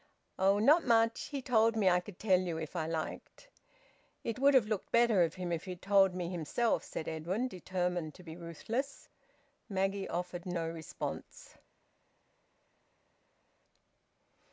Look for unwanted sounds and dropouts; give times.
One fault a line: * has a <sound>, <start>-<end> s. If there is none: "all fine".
all fine